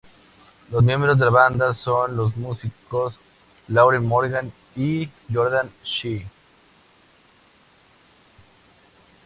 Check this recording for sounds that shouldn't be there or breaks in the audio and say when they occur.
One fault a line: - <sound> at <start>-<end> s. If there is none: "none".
none